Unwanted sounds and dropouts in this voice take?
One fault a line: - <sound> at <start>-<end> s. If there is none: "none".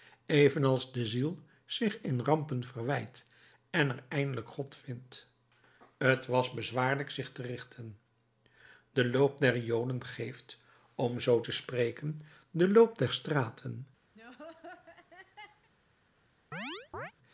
- laugh at 14.1-15.7 s
- chirp at 16.5-17.1 s